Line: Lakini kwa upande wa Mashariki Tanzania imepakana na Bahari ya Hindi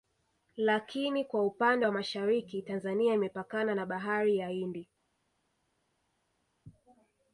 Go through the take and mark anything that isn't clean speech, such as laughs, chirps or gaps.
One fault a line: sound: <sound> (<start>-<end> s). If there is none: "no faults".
no faults